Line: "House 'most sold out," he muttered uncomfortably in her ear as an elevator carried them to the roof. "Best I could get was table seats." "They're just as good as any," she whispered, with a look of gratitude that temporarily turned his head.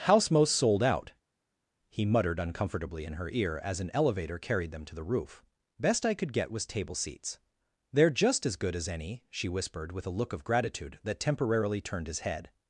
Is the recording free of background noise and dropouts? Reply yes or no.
yes